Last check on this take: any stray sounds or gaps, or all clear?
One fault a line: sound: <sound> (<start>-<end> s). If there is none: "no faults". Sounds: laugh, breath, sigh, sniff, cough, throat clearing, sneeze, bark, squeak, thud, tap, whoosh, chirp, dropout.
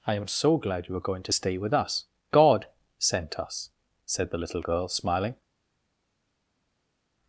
no faults